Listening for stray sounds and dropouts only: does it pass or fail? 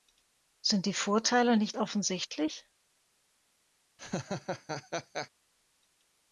fail